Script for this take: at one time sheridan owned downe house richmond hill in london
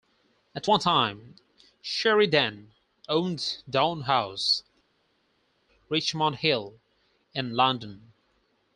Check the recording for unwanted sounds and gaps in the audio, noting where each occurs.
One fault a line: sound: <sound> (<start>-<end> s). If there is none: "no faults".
no faults